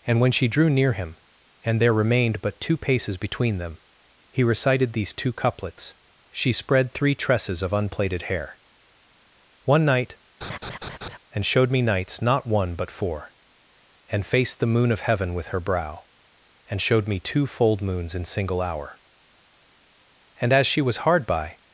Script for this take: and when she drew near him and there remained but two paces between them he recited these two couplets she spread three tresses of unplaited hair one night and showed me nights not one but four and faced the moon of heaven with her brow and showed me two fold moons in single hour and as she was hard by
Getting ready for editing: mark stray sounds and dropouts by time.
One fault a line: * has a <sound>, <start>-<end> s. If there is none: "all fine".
* has a laugh, 10.4-11.2 s